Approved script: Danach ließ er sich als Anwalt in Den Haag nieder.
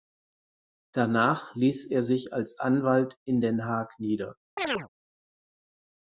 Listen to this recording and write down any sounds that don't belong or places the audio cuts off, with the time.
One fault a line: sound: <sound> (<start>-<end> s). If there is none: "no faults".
sound: chirp (4.6-4.9 s)